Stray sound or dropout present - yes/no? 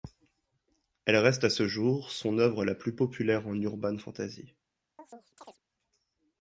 yes